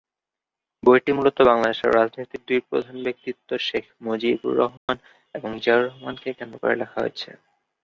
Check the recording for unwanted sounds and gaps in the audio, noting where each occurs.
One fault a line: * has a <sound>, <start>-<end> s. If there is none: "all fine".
* has a dropout, 4.8-4.9 s